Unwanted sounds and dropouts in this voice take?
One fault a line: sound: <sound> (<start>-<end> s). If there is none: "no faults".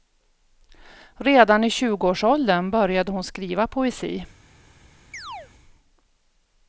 sound: chirp (5.1-5.5 s)